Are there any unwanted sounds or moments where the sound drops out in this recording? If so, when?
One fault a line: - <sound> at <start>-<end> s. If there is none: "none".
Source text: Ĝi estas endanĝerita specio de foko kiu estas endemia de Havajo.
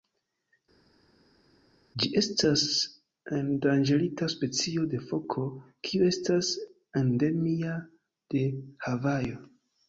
none